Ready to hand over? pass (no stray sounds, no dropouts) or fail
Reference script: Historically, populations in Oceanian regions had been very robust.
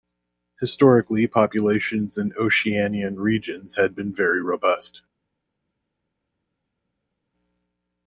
pass